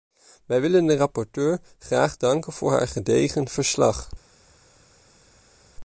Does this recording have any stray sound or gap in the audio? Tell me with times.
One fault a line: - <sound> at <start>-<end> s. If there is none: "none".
none